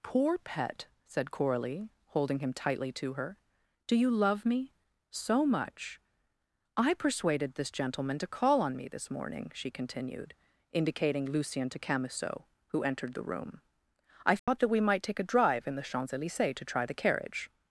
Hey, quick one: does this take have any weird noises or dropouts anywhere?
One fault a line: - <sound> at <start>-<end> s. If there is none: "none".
- dropout at 14.4-14.5 s